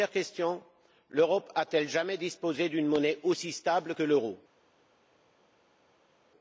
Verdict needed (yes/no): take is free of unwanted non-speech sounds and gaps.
yes